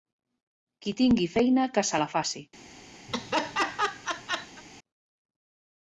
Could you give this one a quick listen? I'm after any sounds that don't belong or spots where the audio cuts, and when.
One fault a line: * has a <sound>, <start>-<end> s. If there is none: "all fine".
* has a laugh, 3.1-4.6 s